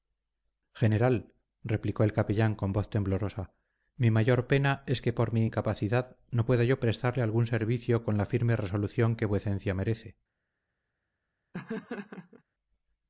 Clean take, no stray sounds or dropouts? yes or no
no